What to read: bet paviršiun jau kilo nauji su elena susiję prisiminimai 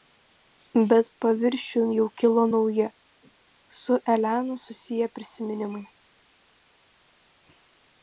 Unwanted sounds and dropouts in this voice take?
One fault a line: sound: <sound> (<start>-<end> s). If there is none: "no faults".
no faults